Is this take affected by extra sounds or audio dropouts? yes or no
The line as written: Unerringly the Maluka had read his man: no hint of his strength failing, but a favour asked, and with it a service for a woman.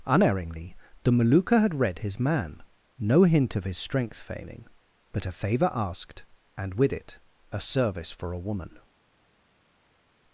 no